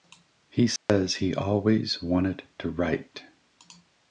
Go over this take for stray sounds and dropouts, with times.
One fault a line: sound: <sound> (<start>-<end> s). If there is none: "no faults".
sound: dropout (0.8-0.9 s)